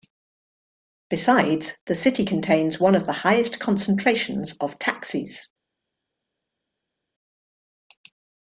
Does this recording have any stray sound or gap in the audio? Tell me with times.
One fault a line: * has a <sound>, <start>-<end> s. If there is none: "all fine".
all fine